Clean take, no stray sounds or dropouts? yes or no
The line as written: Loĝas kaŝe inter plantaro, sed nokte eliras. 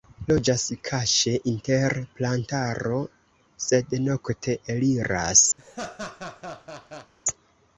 no